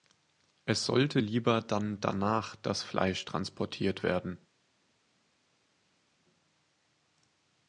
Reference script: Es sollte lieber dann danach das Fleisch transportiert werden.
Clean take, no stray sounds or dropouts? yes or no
yes